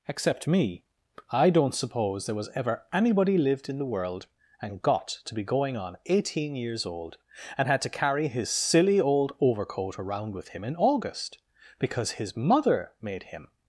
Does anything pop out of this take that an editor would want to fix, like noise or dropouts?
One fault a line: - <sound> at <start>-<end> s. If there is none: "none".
none